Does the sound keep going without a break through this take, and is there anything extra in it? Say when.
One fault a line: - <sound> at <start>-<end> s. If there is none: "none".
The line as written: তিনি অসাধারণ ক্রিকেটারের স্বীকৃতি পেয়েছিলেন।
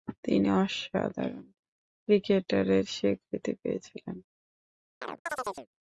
- chirp at 5.0-5.7 s